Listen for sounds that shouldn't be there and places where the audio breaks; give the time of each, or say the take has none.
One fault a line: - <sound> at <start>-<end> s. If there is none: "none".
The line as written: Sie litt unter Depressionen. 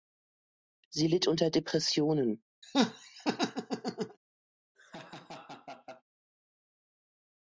- laugh at 2.6-4.2 s
- laugh at 4.7-6.0 s